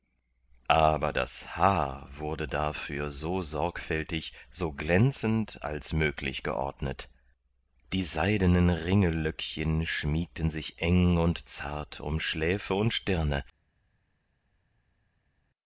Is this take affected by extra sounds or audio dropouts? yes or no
no